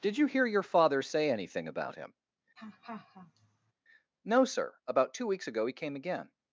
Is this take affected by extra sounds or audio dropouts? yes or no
yes